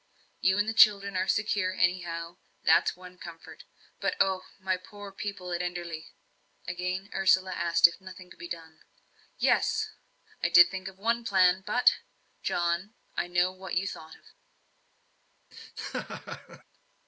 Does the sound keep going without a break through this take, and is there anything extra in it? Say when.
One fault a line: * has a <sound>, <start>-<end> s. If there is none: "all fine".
* has a laugh, 15.5-16.6 s